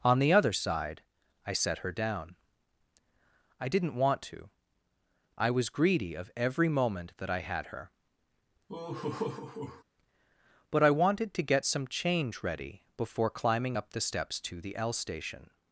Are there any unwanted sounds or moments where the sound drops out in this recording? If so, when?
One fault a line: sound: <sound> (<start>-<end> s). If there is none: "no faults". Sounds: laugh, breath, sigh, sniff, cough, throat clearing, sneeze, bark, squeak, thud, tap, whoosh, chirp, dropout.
sound: laugh (8.7-9.8 s)